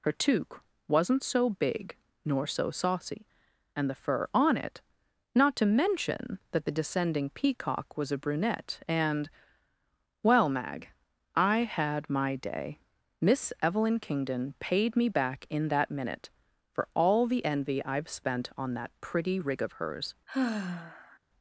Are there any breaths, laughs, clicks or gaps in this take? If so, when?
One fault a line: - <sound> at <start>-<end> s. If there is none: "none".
- sigh at 20.3-21.2 s